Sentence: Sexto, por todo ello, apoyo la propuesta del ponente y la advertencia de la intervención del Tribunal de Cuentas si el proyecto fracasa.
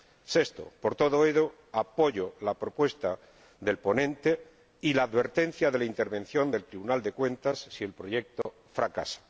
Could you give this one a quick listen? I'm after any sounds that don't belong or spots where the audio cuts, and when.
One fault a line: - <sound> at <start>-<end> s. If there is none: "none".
- dropout at 8.4-8.5 s